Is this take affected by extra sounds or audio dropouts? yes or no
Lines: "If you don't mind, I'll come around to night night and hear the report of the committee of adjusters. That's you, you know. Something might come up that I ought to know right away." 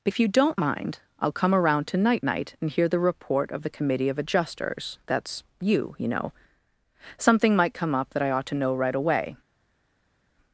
no